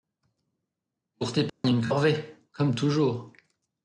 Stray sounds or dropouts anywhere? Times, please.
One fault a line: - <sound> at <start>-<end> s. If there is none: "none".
- dropout at 1.5-1.6 s